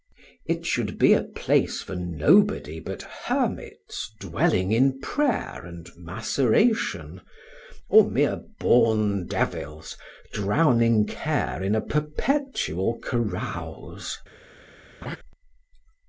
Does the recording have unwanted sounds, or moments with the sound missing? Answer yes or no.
yes